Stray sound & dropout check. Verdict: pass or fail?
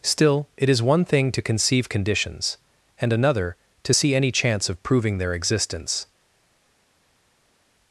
pass